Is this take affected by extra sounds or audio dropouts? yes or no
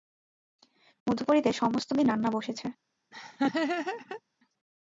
yes